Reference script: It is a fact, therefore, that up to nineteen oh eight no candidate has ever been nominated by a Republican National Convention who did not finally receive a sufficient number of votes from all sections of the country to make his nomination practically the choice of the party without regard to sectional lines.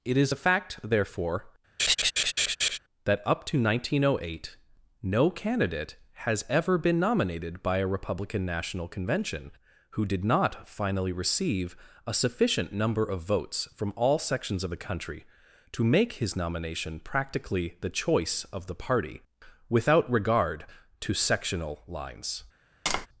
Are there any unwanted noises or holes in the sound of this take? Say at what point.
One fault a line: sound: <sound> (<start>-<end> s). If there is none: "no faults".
sound: laugh (1.8-2.8 s)
sound: tap (22.9-23.1 s)